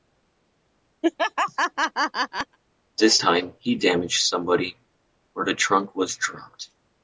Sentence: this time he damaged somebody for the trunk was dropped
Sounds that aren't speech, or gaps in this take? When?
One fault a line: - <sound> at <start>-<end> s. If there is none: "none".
- laugh at 1.0-2.6 s